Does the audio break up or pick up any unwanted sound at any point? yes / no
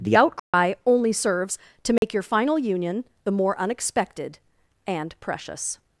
yes